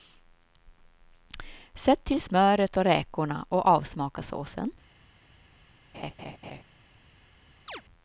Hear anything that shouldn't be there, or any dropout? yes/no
yes